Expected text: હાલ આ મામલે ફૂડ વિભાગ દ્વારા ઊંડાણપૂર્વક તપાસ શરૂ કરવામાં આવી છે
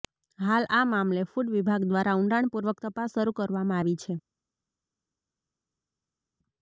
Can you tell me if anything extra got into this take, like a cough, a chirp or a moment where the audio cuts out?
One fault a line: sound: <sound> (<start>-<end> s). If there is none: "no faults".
no faults